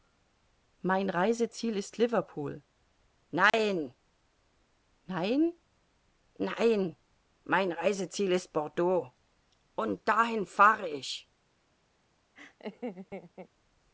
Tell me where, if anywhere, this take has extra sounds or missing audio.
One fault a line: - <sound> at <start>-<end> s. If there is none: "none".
- dropout at 3.5-3.5 s
- laugh at 12.4-13.5 s